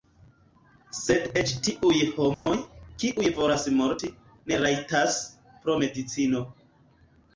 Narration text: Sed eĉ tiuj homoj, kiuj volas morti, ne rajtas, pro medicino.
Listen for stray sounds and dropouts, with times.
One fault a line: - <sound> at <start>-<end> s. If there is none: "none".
- dropout at 2.3-2.5 s